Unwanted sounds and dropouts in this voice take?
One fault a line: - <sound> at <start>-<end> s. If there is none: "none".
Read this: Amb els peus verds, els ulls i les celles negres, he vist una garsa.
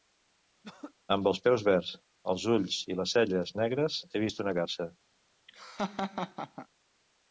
- throat clearing at 0.6-0.9 s
- laugh at 5.5-6.7 s